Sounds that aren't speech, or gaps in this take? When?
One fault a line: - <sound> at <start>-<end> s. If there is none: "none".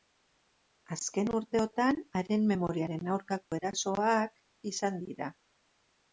- dropout at 3.5-3.5 s